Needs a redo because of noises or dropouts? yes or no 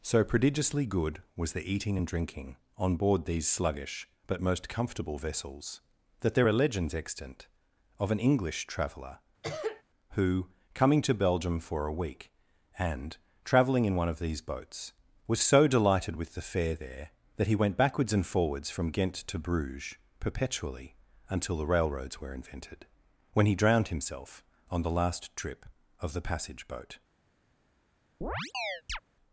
yes